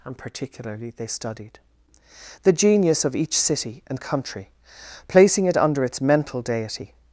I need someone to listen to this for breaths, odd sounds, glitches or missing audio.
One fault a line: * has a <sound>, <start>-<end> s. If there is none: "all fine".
all fine